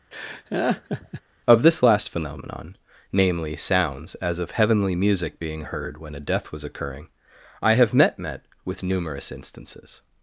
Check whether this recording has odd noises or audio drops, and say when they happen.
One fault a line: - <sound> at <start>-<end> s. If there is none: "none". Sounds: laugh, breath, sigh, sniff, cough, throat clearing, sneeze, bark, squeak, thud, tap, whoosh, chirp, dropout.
- laugh at 0.1-1.2 s